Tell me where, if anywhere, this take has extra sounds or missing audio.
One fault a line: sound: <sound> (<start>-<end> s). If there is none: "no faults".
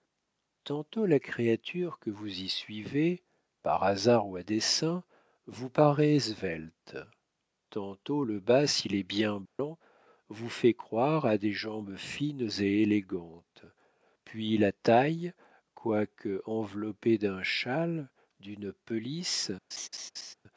sound: dropout (9.5-9.6 s)
sound: laugh (19.7-20.3 s)